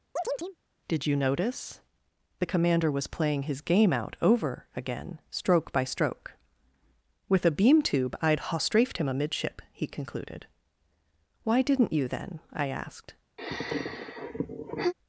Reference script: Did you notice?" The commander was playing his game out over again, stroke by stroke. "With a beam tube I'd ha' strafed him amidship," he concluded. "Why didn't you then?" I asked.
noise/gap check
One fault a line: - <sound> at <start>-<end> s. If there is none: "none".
- chirp at 0.2-0.6 s
- sigh at 13.4-14.9 s